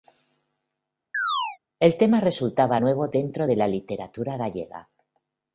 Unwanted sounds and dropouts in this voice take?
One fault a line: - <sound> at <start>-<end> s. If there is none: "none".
- chirp at 1.1-1.6 s